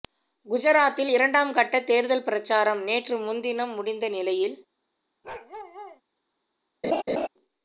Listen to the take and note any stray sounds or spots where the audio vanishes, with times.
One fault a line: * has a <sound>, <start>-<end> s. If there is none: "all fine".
* has a bark, 5.2-6.0 s
* has a laugh, 6.8-7.3 s